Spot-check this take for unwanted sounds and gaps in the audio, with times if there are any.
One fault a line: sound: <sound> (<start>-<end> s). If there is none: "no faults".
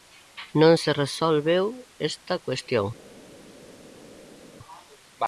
no faults